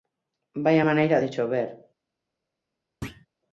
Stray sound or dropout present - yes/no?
yes